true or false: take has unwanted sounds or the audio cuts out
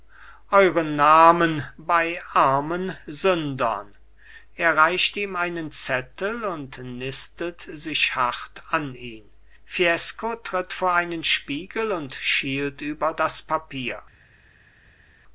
false